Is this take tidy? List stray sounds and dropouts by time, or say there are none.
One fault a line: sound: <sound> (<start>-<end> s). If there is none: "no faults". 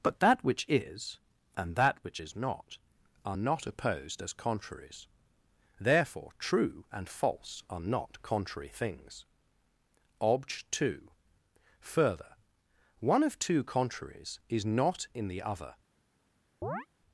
sound: chirp (16.6-16.9 s)